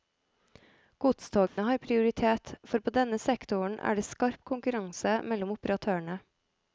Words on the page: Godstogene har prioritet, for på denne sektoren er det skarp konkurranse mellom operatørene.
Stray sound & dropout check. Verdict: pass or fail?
fail